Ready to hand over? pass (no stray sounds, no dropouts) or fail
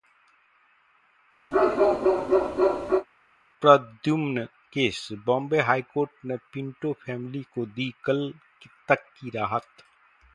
fail